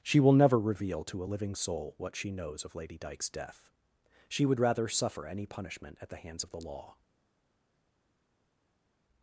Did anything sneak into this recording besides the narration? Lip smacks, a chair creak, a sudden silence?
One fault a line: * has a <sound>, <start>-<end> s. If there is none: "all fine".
all fine